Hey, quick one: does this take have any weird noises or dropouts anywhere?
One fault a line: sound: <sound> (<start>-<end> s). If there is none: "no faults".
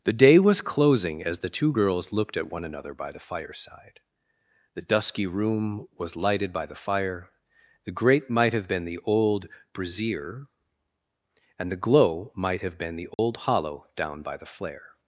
sound: dropout (13.1-13.2 s)